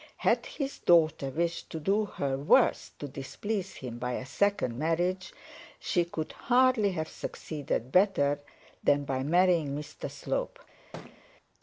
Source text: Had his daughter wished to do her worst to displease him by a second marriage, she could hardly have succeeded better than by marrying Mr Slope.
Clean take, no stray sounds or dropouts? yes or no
no